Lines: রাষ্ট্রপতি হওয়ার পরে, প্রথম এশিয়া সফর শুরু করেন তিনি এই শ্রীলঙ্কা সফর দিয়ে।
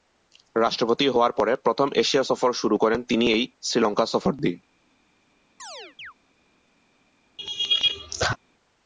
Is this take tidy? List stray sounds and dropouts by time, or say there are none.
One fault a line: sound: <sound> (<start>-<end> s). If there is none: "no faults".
sound: chirp (5.6-6.1 s)
sound: laugh (7.4-8.4 s)